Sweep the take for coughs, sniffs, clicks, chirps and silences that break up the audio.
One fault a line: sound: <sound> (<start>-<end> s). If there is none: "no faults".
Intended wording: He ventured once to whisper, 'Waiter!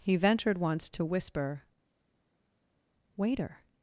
no faults